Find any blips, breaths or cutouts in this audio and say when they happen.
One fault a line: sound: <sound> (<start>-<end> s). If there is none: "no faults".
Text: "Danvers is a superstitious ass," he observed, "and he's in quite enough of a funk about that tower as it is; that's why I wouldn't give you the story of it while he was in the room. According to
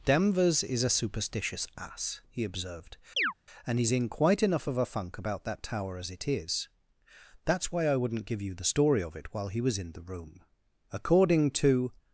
sound: chirp (3.2-3.3 s)